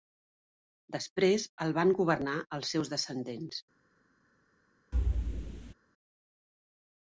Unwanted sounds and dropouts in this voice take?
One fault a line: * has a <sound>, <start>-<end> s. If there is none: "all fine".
* has a thud, 4.9-5.7 s